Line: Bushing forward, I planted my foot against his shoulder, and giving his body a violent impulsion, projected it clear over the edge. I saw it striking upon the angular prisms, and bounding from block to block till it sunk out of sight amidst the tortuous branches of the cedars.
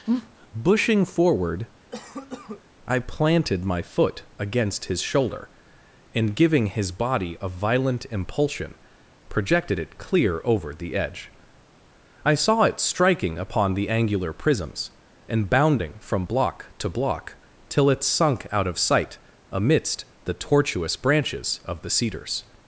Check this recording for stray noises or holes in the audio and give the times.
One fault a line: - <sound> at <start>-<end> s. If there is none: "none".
- cough at 1.9-2.6 s